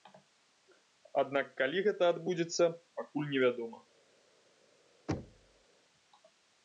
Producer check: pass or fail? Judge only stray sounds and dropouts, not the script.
fail